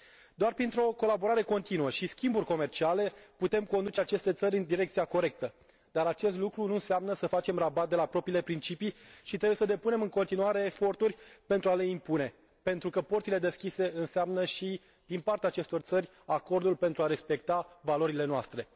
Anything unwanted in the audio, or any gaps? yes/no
no